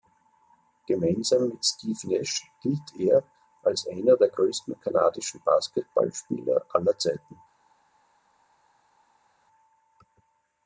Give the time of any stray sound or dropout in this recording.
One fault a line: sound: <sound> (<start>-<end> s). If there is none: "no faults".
no faults